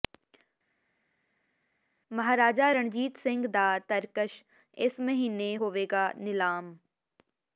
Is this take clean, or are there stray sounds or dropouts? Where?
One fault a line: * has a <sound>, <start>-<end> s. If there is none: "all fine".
all fine